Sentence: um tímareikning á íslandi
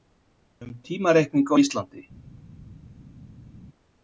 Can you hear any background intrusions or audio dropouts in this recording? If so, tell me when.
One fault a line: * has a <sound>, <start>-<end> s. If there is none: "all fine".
all fine